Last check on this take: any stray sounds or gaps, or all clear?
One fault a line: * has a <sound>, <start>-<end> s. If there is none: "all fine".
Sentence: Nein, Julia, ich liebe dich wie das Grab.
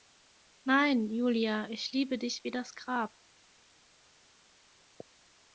all fine